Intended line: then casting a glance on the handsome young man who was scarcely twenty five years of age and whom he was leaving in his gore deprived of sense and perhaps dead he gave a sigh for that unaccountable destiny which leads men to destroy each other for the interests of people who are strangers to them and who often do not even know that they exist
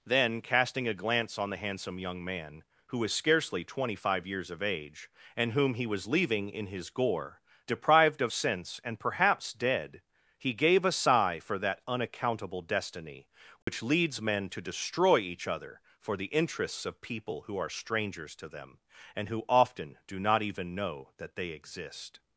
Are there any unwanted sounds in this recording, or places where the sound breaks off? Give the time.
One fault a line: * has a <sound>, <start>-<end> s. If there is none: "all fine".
* has a dropout, 13.6-13.7 s